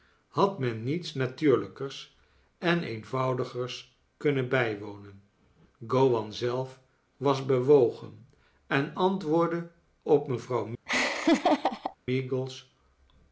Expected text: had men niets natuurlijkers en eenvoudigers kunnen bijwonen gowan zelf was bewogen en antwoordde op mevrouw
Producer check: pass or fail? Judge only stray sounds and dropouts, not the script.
fail